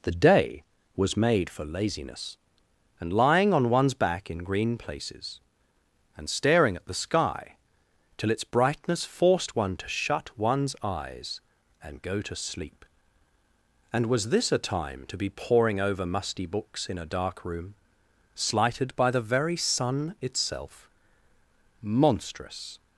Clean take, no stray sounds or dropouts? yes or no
yes